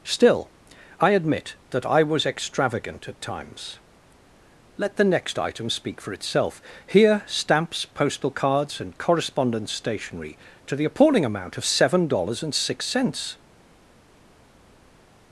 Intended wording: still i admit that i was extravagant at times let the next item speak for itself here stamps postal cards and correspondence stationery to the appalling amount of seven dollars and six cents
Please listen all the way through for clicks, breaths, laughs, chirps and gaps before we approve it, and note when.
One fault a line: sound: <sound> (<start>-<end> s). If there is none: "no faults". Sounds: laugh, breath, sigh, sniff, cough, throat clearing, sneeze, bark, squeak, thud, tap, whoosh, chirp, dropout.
no faults